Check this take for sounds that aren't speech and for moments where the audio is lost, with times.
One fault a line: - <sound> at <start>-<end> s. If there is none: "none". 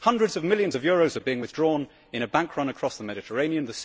none